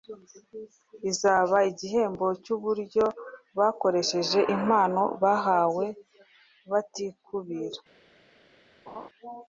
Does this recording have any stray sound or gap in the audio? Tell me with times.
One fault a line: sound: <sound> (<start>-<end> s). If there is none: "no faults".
sound: laugh (8.9-9.1 s)